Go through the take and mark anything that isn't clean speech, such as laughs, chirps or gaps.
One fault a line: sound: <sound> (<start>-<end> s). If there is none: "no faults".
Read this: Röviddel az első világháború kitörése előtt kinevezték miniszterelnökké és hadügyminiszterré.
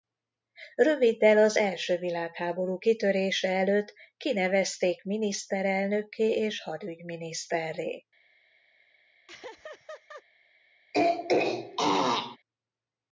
sound: laugh (9.3-10.2 s)
sound: throat clearing (10.9-12.4 s)